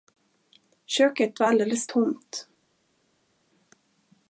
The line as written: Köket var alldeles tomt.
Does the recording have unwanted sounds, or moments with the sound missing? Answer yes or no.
no